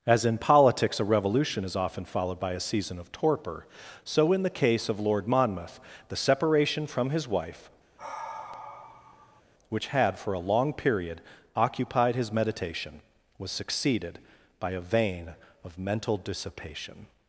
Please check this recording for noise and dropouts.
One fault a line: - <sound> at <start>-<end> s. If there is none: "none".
- sigh at 8.0-9.4 s